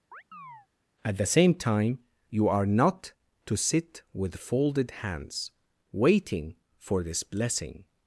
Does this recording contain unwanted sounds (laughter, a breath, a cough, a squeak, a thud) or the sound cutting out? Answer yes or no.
yes